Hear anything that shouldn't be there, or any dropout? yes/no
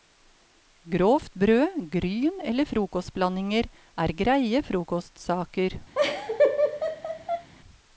yes